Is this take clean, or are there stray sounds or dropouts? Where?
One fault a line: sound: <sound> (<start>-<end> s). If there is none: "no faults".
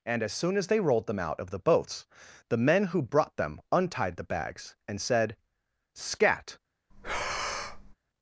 sound: breath (6.9-8.0 s)